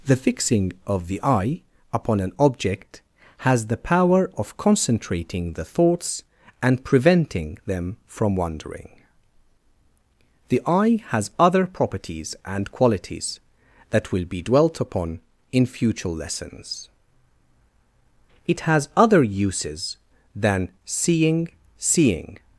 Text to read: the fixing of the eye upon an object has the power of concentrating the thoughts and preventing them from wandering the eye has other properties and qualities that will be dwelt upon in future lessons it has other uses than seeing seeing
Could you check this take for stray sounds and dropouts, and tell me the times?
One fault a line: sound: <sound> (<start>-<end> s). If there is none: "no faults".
no faults